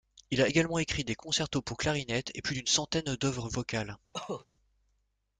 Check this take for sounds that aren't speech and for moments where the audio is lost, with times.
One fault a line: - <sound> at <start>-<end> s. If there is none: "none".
- cough at 4.1-4.5 s